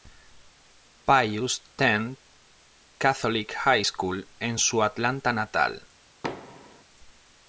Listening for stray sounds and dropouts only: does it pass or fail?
fail